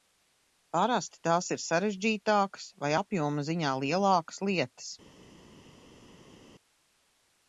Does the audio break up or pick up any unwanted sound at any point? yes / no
no